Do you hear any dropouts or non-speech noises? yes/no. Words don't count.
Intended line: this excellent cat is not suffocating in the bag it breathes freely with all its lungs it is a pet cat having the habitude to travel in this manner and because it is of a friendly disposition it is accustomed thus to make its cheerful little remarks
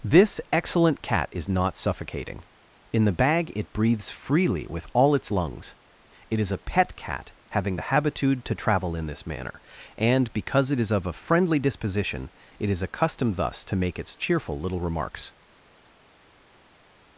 no